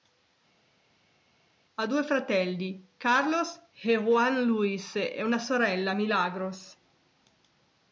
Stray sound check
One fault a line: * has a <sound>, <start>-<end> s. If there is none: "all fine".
all fine